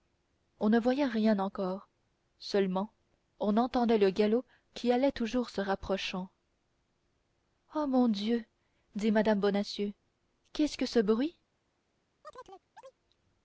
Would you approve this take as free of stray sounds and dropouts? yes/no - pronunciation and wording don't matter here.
no